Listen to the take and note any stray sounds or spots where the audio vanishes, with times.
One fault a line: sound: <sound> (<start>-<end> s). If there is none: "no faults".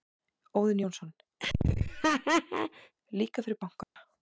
sound: laugh (1.4-2.9 s)
sound: dropout (3.8-4.0 s)